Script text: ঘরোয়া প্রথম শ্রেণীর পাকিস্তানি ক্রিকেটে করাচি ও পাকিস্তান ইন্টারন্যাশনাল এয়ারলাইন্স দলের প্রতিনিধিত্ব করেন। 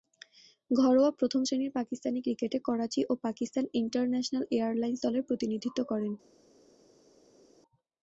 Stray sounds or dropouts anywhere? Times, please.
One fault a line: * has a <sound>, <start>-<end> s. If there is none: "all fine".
all fine